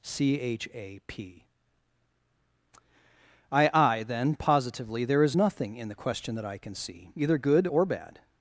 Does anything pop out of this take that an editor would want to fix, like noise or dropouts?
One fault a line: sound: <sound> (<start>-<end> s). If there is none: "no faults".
no faults